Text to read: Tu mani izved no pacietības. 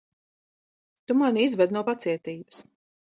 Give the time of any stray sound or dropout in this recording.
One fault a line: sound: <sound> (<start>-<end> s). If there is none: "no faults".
no faults